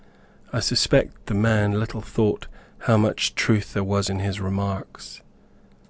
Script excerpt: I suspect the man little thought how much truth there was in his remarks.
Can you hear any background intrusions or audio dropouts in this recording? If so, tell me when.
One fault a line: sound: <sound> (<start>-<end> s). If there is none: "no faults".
no faults